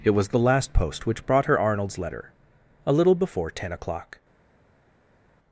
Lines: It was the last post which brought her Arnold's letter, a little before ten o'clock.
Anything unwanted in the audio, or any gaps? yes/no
no